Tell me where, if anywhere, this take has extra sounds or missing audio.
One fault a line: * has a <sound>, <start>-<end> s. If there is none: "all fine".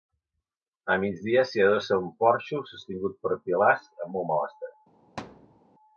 * has a thud, 5.2-5.6 s